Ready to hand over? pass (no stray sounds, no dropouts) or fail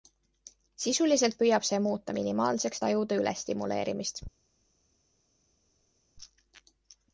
pass